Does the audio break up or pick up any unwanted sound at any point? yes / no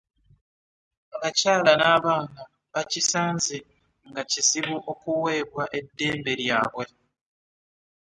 no